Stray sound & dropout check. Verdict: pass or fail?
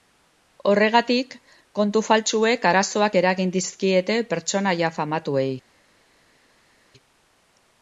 pass